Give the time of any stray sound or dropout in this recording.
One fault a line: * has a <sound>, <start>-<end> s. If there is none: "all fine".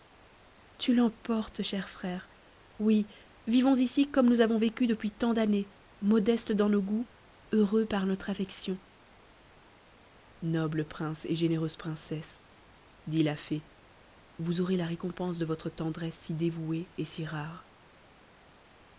all fine